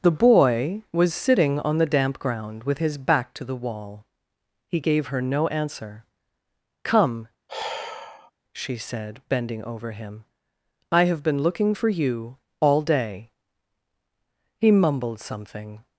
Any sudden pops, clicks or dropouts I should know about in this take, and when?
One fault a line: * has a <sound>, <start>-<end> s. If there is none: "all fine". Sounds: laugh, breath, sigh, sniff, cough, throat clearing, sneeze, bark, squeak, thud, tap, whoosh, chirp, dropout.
* has a sigh, 7.5-8.3 s